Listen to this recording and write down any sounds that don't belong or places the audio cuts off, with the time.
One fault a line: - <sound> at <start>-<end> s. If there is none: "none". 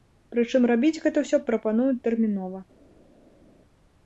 none